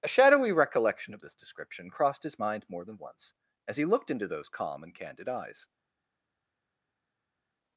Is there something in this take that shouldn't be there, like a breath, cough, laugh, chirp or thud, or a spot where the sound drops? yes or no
no